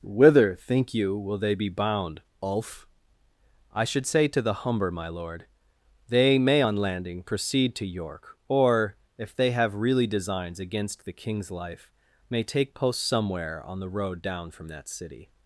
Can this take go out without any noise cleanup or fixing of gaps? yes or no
yes